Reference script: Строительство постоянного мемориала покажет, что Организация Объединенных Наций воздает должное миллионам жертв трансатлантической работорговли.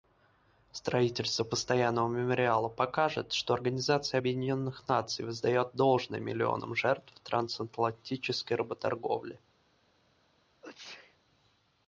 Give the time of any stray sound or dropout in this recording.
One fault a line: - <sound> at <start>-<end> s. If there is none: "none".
- sneeze at 10.6-11.2 s